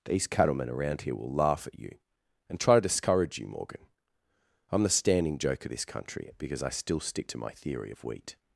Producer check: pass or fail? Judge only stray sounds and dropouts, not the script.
pass